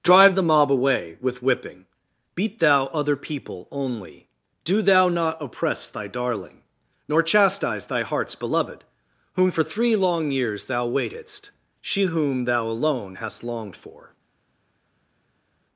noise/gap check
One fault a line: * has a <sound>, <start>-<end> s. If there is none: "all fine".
all fine